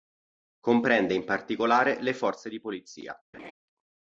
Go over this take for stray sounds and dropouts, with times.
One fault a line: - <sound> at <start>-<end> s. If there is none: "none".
- laugh at 3.3-3.5 s